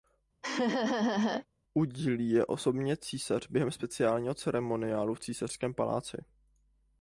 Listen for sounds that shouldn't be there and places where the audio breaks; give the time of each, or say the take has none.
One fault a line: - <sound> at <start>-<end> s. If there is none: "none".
- laugh at 0.4-1.5 s